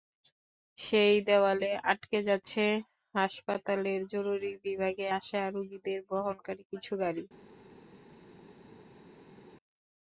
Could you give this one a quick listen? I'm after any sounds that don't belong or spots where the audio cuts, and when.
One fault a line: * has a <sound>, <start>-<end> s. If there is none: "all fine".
all fine